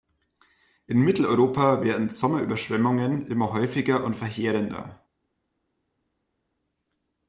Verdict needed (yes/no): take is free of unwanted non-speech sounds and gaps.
yes